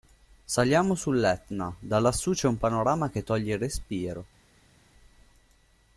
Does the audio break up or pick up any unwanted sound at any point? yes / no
no